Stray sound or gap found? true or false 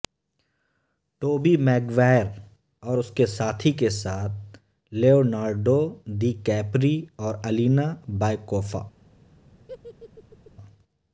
true